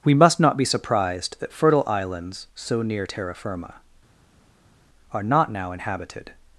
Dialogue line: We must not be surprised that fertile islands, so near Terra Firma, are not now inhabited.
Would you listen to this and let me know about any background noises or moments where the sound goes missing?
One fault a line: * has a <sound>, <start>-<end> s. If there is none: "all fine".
all fine